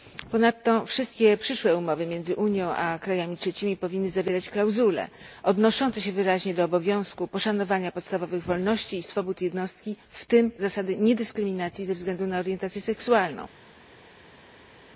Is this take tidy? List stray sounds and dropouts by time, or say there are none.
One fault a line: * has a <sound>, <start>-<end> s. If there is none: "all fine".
all fine